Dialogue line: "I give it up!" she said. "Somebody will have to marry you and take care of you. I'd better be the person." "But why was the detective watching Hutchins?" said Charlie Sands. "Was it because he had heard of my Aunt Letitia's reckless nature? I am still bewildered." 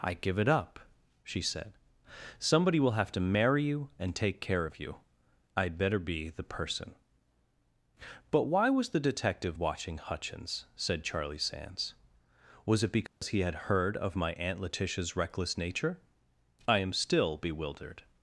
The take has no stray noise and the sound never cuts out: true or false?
false